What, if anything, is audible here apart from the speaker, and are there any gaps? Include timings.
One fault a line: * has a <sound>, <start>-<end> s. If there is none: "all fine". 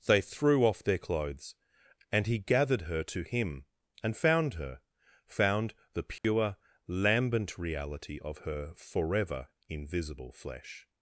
* has a dropout, 6.2-6.2 s